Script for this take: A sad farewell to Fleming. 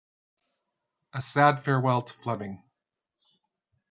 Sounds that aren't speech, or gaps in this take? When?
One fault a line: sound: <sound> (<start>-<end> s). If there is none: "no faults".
no faults